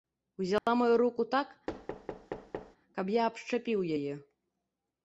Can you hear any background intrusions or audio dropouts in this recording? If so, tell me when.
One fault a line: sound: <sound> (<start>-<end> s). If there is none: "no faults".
sound: dropout (0.6-0.7 s)
sound: thud (1.7-2.8 s)